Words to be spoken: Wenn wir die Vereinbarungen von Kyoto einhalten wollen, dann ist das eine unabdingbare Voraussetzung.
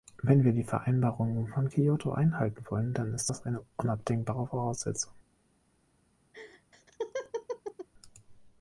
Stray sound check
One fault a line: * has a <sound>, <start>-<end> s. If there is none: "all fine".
* has a laugh, 6.3-7.9 s